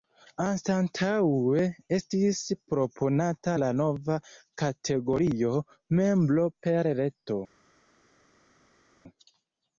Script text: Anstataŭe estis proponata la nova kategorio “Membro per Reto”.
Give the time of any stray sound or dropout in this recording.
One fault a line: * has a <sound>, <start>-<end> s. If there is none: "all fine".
all fine